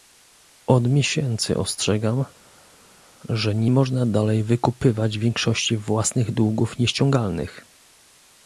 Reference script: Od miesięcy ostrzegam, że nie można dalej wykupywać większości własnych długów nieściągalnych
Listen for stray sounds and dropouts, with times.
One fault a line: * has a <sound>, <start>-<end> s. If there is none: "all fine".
all fine